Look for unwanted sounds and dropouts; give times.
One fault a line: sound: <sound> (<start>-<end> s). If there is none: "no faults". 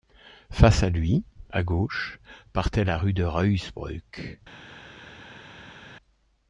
no faults